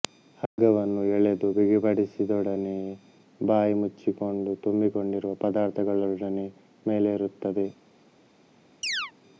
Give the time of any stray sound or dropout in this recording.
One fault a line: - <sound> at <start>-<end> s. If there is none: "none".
- dropout at 0.5-0.6 s
- chirp at 8.8-9.1 s